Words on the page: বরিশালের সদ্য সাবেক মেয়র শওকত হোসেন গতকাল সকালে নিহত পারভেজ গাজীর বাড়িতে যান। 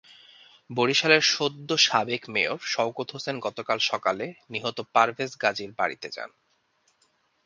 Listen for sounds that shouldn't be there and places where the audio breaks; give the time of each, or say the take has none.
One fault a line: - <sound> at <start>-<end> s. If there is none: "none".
none